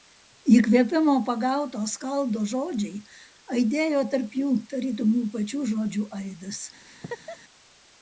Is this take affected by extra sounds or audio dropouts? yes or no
yes